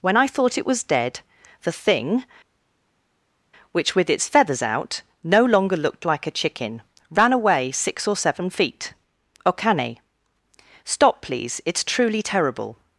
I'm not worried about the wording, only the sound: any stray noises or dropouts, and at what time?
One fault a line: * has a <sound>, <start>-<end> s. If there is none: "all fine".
all fine